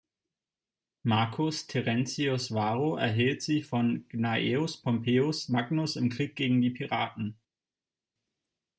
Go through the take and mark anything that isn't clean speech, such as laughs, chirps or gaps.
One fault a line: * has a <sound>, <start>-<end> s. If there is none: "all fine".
all fine